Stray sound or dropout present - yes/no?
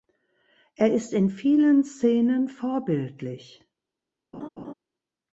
yes